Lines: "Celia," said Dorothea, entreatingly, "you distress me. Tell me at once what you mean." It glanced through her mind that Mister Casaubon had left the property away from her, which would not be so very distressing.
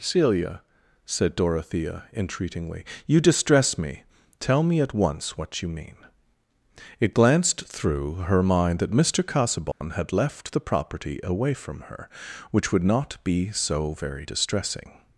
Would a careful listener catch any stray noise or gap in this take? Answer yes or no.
yes